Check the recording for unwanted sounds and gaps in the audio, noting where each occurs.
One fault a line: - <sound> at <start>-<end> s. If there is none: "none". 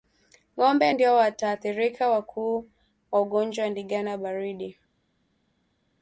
none